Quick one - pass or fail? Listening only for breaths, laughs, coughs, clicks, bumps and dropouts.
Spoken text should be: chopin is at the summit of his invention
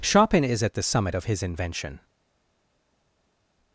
pass